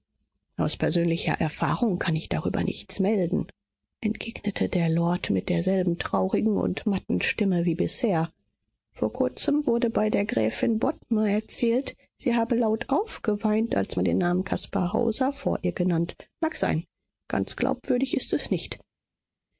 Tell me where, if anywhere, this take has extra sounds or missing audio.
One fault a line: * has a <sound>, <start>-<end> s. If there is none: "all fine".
all fine